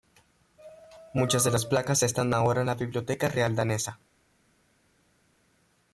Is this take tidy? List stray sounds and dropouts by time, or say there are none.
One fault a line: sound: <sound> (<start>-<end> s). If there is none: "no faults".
no faults